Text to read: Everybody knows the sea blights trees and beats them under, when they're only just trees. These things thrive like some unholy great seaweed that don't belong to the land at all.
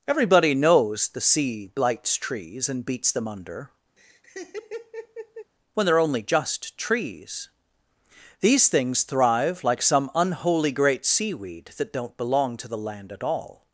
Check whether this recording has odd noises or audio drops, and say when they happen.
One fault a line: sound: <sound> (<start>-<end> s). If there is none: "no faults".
sound: laugh (4.0-5.5 s)